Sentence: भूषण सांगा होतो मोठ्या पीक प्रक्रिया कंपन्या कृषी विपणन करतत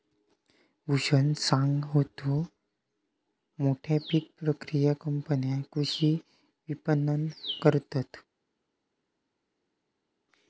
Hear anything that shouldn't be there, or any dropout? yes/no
no